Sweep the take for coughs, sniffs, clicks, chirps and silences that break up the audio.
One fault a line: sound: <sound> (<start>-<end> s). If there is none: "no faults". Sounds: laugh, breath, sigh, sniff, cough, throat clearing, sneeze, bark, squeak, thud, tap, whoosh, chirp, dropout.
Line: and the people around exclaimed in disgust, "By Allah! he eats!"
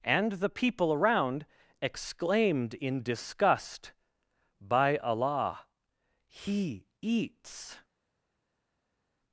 no faults